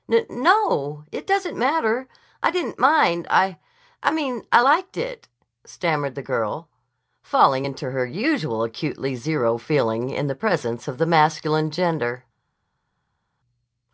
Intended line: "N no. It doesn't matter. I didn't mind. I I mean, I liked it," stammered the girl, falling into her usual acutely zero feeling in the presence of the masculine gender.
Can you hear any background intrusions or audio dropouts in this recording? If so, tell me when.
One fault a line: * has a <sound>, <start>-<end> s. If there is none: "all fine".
all fine